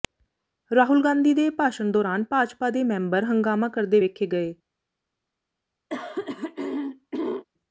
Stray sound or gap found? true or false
true